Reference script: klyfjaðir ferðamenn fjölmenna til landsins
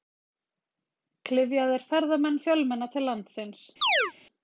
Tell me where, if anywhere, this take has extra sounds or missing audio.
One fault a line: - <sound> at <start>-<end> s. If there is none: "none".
- chirp at 3.8-4.1 s